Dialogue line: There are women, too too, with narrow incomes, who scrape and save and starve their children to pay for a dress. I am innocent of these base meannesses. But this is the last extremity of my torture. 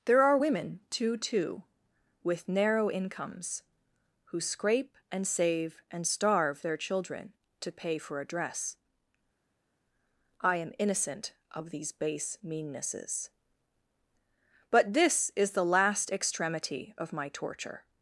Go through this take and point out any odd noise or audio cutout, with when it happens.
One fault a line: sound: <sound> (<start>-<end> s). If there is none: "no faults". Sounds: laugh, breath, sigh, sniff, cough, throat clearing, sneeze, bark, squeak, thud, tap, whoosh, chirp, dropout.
no faults